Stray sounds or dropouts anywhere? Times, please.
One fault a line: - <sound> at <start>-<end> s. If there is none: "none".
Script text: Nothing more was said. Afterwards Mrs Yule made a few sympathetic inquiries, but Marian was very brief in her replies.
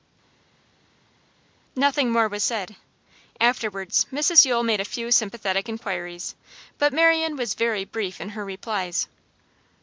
none